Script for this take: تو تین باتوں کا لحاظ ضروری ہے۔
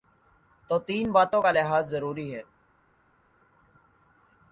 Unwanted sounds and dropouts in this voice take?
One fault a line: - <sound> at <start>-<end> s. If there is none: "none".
none